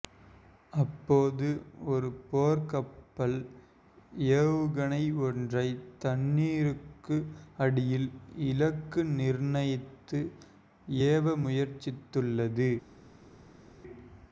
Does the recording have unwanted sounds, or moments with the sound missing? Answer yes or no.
no